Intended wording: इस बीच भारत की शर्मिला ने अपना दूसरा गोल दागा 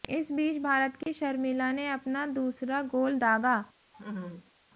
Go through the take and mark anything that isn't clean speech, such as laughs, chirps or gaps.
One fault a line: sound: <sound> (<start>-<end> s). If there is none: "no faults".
sound: dropout (1.0-1.1 s)
sound: laugh (3.9-4.5 s)